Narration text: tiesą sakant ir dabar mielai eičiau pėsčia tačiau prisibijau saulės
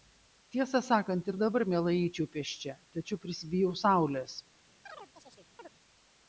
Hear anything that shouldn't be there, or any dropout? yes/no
yes